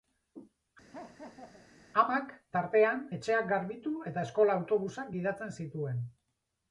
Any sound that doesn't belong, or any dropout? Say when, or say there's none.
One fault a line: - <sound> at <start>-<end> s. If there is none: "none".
- laugh at 0.9-1.7 s